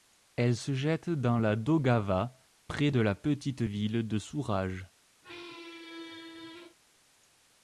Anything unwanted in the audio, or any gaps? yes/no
yes